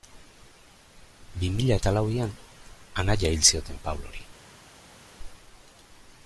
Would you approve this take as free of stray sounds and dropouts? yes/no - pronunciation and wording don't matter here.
yes